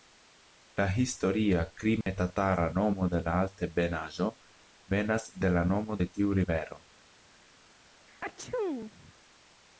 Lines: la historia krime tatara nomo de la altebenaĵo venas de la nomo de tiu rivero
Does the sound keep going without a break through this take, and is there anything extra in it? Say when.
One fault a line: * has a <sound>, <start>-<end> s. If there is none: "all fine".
* has a dropout, 2.0-2.1 s
* has a sneeze, 8.1-9.1 s